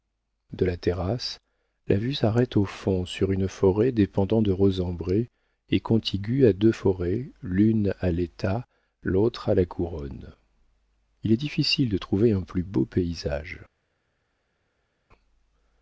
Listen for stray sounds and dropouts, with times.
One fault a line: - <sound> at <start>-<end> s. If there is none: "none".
none